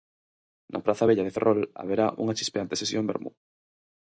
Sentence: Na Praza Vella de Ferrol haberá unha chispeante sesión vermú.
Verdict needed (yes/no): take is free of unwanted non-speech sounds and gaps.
yes